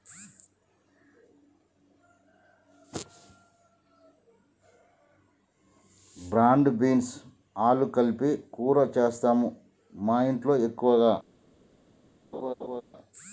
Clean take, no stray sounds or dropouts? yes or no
no